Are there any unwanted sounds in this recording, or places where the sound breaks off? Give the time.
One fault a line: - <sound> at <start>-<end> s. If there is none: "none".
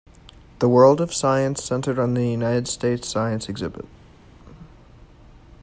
none